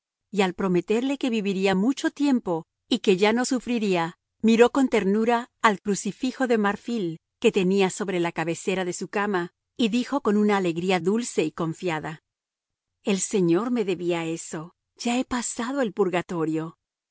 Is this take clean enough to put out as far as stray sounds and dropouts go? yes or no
yes